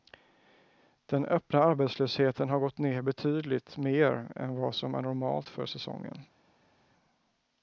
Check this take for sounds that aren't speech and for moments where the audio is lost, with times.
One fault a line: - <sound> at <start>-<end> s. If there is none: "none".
none